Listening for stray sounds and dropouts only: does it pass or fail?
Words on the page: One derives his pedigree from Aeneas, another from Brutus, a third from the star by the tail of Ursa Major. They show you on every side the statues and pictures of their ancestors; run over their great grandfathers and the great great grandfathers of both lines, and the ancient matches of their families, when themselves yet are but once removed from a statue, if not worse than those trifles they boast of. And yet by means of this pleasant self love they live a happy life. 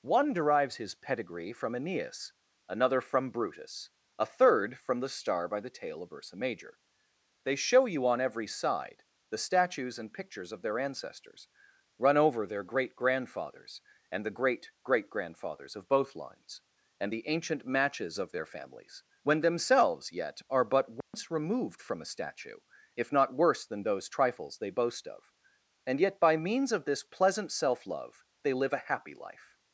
fail